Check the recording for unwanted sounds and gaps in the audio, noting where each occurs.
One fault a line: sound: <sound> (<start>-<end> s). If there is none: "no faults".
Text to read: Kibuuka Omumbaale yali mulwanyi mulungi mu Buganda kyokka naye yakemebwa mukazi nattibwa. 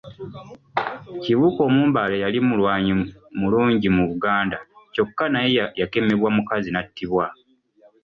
no faults